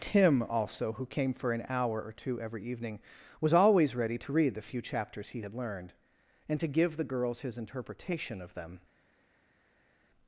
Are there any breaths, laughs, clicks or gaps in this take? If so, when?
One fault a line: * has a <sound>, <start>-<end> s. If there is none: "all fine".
all fine